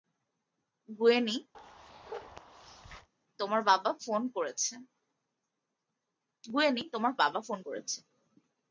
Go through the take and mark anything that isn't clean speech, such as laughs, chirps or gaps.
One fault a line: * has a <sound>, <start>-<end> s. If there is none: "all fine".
* has a bark, 1.5-3.1 s